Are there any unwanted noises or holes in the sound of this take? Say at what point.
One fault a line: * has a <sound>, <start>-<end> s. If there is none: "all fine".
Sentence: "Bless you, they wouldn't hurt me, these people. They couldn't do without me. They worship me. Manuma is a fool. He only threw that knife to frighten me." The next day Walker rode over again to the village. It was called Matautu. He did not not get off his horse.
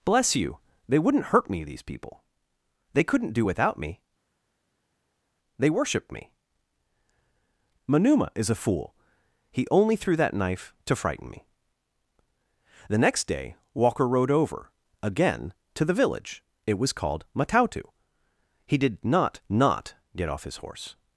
all fine